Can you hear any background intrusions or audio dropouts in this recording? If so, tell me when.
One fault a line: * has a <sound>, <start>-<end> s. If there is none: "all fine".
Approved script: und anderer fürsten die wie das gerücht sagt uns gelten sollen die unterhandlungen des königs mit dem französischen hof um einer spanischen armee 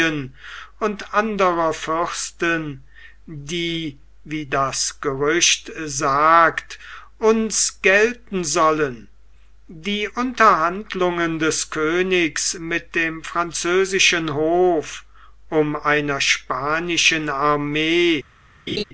* has a laugh, 18.7-18.8 s